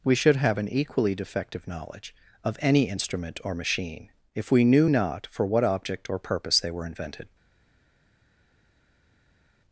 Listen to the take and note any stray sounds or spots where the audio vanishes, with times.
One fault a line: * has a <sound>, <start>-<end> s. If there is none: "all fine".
all fine